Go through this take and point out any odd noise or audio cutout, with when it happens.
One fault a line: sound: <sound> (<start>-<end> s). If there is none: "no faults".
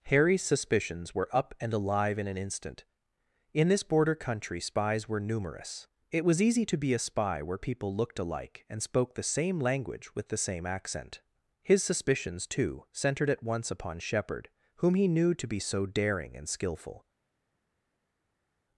no faults